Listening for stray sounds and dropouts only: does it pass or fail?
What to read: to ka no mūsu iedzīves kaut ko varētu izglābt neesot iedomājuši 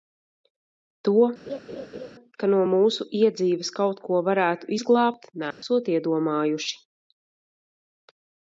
fail